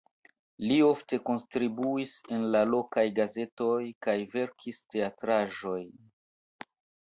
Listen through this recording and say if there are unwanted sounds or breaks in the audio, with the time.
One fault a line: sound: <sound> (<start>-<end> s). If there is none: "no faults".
no faults